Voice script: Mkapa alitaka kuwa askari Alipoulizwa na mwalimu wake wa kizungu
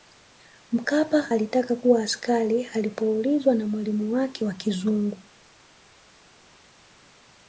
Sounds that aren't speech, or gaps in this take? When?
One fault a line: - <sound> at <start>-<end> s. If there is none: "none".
none